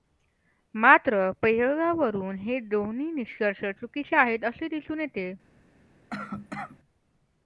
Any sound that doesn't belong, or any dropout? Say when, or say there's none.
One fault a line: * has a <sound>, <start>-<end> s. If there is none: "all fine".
* has a cough, 6.1-6.8 s